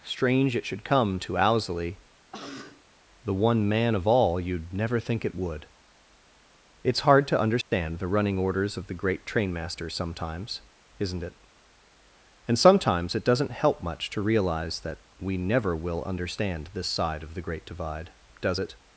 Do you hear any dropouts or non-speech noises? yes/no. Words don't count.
yes